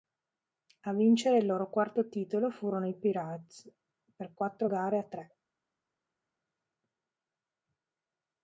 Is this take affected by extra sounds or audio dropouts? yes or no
no